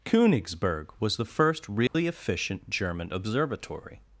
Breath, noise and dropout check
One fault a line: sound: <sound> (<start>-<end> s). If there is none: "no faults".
sound: dropout (1.9-1.9 s)